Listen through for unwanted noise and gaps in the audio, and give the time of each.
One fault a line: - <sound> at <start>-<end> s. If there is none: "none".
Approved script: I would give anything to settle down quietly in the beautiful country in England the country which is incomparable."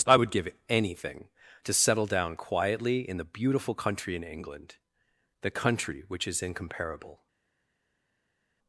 none